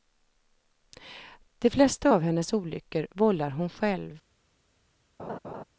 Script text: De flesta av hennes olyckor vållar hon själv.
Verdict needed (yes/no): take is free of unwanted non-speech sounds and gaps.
no